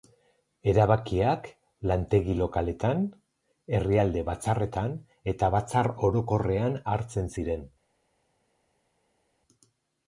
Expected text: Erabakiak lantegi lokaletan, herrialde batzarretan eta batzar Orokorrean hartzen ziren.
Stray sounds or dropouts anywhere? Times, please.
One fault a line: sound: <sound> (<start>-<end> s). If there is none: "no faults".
no faults